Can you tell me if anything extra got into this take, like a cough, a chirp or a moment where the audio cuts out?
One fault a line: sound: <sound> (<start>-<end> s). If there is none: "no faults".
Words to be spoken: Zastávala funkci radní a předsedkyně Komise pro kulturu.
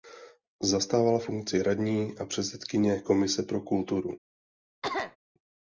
sound: cough (4.8-5.2 s)